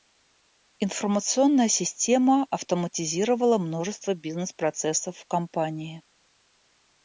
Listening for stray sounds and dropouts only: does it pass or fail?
pass